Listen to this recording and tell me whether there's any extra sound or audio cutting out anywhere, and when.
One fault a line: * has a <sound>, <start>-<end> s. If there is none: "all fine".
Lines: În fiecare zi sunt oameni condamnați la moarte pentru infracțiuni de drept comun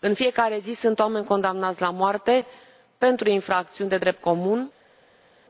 all fine